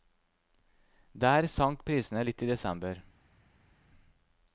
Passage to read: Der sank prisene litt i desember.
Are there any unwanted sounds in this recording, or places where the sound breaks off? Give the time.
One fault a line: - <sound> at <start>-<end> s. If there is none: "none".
none